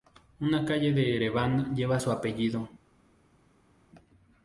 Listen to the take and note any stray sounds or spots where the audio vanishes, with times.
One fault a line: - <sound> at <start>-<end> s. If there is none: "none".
none